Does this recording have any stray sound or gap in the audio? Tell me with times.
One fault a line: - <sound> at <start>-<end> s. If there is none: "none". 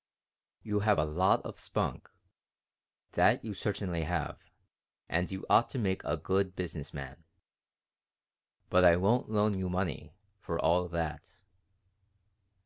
none